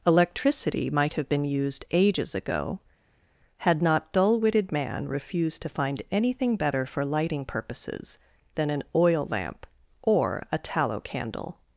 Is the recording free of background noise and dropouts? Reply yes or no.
yes